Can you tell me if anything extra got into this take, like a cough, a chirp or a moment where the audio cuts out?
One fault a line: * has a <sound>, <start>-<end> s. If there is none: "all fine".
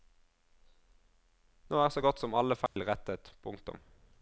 * has a dropout, 2.7-2.8 s